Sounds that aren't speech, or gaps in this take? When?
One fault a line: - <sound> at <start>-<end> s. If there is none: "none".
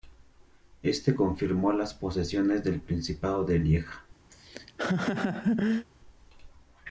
- laugh at 4.3-5.9 s